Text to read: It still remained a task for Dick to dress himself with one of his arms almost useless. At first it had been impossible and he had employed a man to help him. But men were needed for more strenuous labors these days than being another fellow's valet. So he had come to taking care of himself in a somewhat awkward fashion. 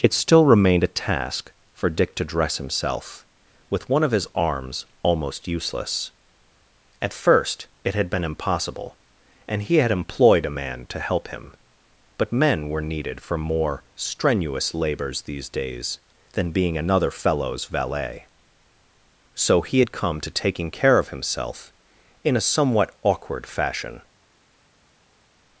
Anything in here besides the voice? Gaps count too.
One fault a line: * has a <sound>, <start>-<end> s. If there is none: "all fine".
all fine